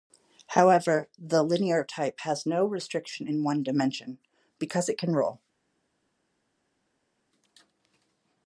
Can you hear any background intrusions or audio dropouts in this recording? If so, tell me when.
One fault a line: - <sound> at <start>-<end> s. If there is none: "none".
none